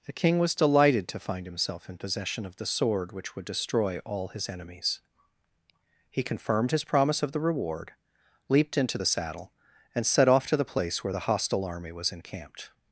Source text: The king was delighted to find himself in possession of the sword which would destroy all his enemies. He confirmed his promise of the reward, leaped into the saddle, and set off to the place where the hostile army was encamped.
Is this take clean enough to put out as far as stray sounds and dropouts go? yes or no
yes